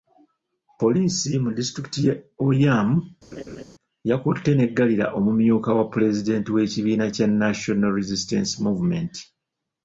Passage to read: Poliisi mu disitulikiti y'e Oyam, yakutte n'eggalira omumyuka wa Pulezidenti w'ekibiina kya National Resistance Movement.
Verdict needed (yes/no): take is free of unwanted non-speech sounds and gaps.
no